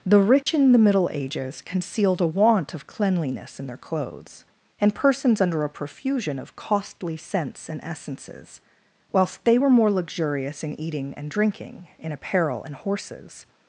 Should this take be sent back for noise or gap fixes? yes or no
yes